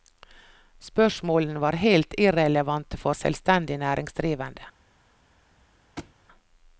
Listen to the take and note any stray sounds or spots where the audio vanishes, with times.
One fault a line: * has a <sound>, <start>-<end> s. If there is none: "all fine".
* has a thud, 6.0-6.2 s